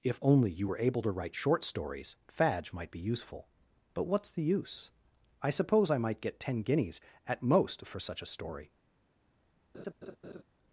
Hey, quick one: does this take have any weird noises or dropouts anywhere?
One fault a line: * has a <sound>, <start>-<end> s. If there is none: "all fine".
* has a laugh, 9.7-10.4 s